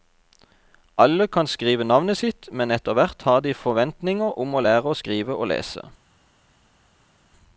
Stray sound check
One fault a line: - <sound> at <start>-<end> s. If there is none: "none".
none